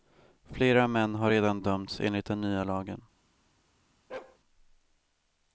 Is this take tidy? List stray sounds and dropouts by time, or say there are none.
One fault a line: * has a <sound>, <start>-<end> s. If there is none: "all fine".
* has a bark, 4.1-4.4 s